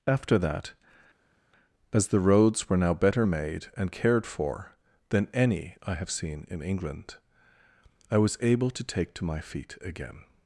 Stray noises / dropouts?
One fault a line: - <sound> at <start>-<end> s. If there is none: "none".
none